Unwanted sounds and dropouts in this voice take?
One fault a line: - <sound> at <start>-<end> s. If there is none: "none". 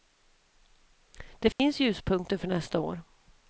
- dropout at 1.5-1.6 s